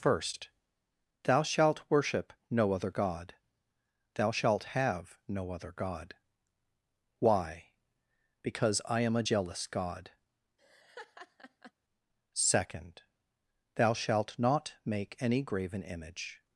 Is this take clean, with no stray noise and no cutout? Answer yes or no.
no